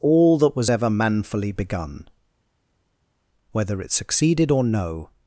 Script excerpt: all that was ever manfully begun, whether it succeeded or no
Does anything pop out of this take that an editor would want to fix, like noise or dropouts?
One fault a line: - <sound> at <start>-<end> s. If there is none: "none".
none